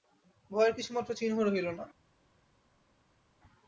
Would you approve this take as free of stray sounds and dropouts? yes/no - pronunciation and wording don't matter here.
yes